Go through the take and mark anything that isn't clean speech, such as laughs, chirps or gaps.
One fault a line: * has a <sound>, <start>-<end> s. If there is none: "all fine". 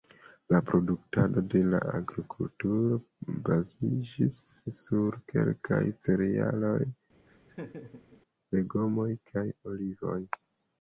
* has a laugh, 7.3-8.2 s